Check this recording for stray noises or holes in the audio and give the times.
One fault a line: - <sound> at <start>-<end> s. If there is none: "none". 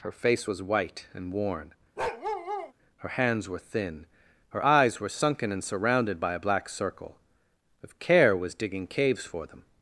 - bark at 2.0-2.7 s